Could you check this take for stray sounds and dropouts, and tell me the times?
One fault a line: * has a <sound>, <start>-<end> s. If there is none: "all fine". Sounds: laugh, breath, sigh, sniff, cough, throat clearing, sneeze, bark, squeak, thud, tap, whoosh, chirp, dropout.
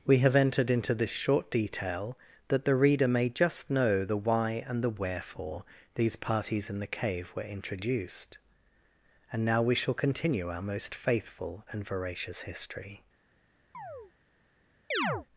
* has a chirp, 13.7-14.1 s
* has a chirp, 14.9-15.3 s